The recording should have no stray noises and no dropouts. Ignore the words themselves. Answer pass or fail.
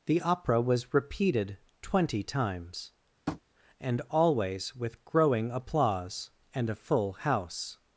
fail